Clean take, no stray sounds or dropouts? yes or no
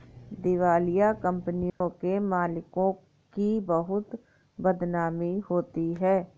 no